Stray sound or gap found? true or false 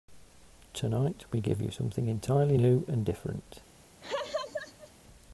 true